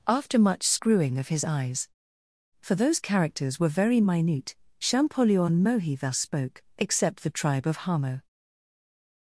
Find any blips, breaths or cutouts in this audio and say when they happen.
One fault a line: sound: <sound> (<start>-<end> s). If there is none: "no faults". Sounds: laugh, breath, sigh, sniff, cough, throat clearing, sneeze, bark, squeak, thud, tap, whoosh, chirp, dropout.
no faults